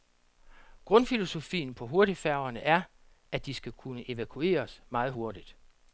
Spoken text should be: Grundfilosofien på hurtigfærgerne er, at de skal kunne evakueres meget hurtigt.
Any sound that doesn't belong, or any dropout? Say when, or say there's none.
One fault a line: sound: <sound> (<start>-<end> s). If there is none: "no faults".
no faults